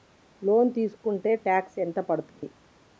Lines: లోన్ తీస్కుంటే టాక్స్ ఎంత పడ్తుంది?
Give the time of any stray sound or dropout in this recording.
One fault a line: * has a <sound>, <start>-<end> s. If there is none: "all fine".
* has a dropout, 2.3-2.4 s